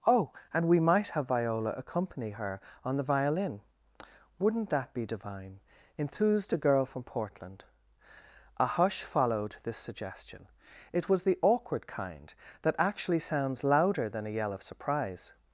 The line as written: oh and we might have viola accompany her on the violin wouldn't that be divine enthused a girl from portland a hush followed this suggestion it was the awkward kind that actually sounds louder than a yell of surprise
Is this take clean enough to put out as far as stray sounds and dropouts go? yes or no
yes